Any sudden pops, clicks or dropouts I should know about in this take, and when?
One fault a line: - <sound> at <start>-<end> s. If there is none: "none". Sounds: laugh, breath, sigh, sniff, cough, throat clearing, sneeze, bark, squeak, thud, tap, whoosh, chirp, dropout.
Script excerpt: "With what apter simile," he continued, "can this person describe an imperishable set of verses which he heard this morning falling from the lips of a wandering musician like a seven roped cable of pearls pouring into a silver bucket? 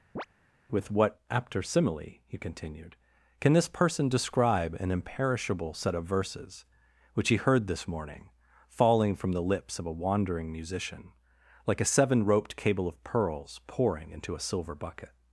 - chirp at 0.2-0.3 s